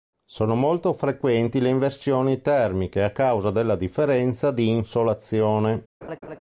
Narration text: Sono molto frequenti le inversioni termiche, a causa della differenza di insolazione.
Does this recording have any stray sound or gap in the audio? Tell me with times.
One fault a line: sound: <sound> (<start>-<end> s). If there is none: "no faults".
sound: laugh (6.0-6.4 s)